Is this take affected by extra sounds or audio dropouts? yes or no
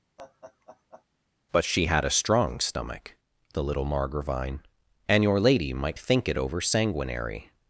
yes